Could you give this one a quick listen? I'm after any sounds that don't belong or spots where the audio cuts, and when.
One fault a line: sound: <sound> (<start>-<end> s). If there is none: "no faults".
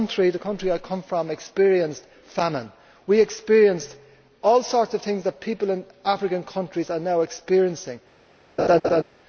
sound: laugh (8.6-9.0 s)